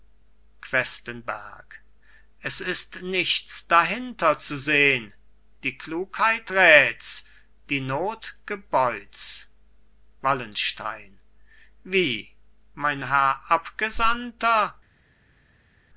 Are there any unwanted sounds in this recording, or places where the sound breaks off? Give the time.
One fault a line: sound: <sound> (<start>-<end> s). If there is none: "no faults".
no faults